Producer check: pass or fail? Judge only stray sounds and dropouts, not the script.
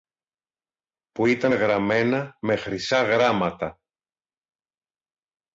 pass